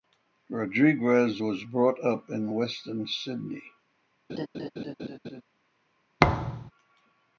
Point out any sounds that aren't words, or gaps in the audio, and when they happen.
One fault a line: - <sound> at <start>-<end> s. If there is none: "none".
- laugh at 4.3-5.4 s
- thud at 6.2-6.7 s